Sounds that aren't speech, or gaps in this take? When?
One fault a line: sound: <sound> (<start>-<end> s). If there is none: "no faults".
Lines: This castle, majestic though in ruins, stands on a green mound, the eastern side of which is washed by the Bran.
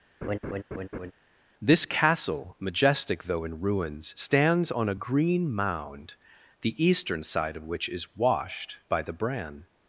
sound: laugh (0.2-1.1 s)